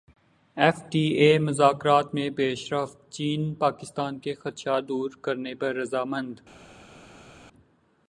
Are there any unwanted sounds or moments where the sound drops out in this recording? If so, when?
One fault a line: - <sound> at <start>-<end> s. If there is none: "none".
none